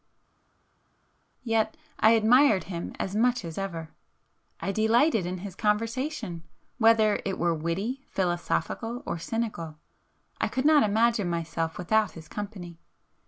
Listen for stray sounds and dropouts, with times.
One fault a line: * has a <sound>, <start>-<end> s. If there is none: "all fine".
all fine